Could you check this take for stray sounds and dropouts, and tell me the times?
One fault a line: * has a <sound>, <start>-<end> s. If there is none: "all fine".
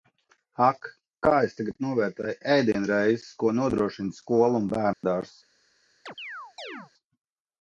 * has a dropout, 4.9-5.0 s
* has a chirp, 6.1-6.9 s